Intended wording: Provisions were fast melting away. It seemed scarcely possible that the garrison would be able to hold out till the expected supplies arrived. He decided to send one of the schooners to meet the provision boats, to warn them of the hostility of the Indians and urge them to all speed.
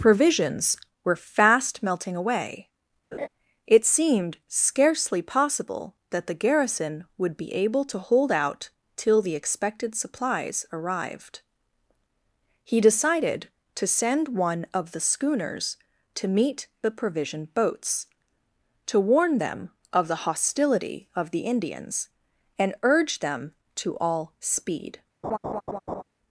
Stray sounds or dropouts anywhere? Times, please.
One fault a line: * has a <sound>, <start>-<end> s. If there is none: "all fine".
* has a laugh, 3.1-3.3 s
* has a laugh, 25.2-26.0 s